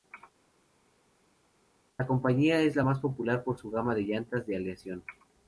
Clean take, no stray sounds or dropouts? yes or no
yes